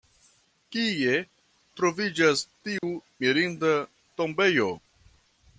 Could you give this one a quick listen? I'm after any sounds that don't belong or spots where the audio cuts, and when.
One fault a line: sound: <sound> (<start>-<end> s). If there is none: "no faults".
sound: dropout (2.8-2.8 s)